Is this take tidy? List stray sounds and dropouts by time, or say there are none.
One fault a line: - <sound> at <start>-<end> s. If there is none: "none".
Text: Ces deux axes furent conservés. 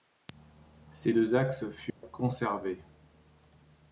- dropout at 1.9-2.0 s